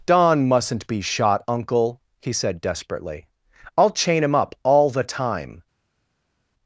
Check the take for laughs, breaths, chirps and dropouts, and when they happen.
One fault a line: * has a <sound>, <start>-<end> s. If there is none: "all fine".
all fine